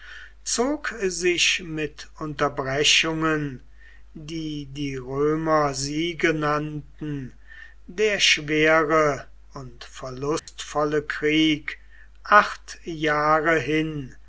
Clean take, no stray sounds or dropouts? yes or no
no